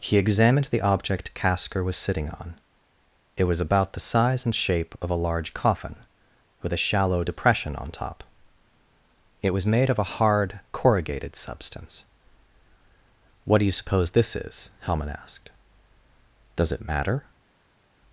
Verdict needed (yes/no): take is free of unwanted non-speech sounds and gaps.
yes